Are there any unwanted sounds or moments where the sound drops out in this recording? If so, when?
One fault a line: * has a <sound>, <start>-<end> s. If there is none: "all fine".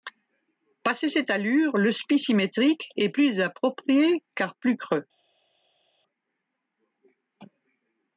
all fine